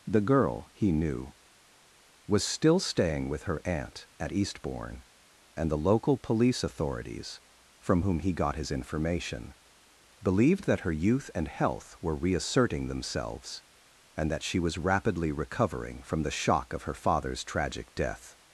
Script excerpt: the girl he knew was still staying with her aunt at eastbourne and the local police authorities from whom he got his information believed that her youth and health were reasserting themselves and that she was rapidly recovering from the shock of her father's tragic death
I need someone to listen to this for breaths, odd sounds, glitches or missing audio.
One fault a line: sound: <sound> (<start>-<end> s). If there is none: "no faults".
no faults